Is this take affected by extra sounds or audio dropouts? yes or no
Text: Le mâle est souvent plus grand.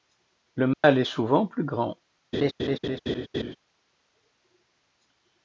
yes